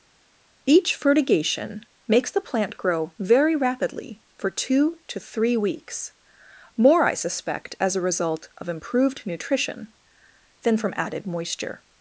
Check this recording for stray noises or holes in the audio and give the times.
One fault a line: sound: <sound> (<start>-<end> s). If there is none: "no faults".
no faults